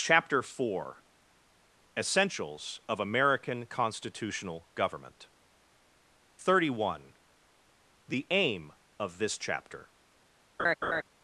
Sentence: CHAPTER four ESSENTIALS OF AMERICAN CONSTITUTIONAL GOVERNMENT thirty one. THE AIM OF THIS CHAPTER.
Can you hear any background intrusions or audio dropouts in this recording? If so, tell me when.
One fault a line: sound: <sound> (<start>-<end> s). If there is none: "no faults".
sound: laugh (10.6-11.0 s)